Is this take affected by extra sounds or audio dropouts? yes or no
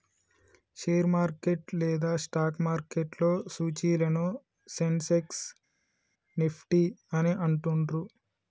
no